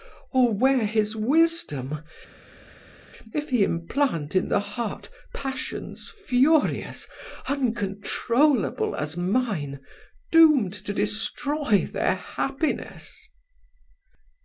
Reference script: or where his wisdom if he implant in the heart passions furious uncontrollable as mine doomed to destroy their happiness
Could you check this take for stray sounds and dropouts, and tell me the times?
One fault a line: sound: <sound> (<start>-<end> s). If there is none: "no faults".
no faults